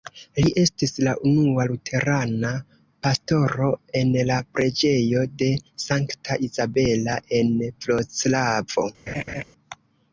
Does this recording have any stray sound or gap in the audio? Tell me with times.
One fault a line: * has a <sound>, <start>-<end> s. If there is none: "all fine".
* has a laugh, 9.1-9.4 s